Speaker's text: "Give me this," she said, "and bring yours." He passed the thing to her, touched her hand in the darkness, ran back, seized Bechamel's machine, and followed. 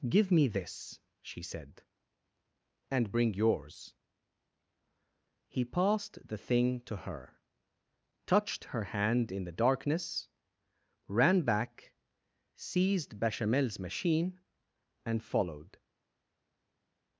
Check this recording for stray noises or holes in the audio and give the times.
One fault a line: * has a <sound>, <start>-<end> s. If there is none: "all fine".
all fine